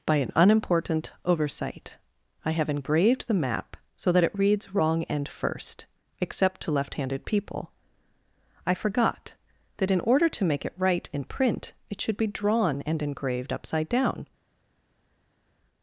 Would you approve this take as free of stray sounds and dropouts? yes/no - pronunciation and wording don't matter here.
yes